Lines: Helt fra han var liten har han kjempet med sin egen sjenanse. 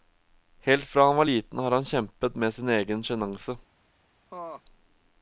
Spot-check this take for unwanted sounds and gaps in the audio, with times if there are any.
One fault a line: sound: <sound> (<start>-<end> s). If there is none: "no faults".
sound: laugh (4.3-4.6 s)